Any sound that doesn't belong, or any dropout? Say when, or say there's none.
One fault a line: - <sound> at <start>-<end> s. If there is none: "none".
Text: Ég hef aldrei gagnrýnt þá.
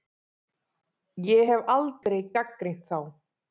- dropout at 2.0-2.1 s